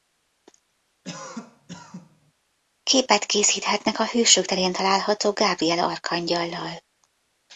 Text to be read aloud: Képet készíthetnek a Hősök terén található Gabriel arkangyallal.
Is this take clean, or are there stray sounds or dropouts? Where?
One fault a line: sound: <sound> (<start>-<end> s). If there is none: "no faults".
sound: cough (1.0-2.3 s)